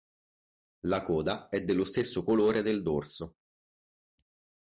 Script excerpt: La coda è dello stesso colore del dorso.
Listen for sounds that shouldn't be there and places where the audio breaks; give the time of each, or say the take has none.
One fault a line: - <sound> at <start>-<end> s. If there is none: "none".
none